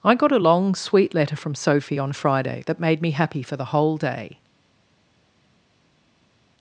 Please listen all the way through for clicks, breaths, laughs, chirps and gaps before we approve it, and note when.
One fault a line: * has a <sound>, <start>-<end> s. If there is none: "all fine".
all fine